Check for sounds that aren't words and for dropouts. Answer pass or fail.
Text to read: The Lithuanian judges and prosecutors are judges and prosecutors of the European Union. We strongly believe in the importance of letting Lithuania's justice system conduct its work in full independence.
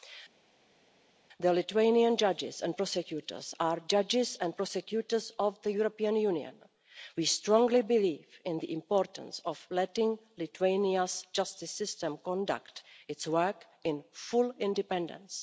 pass